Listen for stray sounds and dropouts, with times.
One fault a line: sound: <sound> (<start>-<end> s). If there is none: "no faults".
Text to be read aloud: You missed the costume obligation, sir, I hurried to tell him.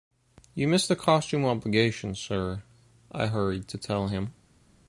no faults